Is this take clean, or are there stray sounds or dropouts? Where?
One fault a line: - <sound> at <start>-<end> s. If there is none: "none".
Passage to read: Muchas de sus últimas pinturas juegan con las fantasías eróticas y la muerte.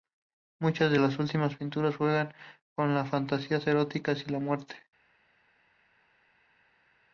none